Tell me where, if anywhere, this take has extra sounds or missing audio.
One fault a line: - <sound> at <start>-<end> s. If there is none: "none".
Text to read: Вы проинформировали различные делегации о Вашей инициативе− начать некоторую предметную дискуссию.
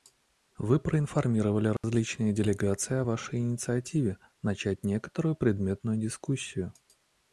- dropout at 1.8-1.8 s